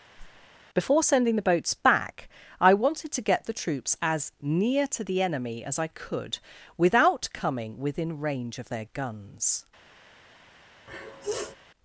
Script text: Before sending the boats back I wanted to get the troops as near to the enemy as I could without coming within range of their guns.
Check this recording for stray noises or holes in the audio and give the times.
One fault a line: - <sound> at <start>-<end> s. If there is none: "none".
- whoosh at 0.2-0.5 s
- sniff at 10.9-11.6 s